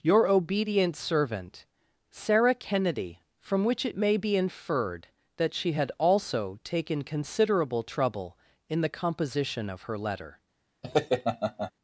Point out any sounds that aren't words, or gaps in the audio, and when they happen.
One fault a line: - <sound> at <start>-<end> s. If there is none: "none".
- laugh at 10.8-11.7 s